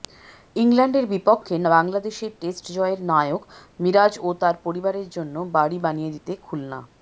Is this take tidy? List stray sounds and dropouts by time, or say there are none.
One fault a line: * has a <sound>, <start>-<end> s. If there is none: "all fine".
all fine